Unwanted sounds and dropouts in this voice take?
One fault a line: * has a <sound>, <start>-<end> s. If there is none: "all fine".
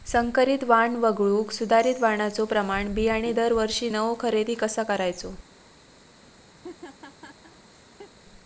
* has a laugh, 6.6-8.1 s